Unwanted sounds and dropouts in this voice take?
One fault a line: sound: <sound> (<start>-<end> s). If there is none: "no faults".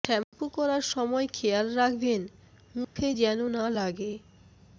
sound: dropout (0.2-0.3 s)
sound: dropout (2.8-3.0 s)